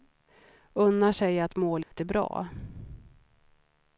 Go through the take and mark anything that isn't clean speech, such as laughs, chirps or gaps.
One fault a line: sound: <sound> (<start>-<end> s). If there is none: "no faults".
sound: dropout (1.8-1.9 s)